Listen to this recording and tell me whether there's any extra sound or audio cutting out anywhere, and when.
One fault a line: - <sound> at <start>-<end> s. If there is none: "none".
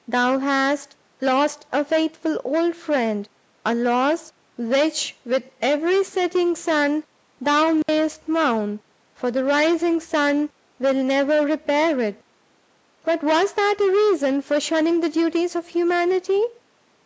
- dropout at 7.8-7.9 s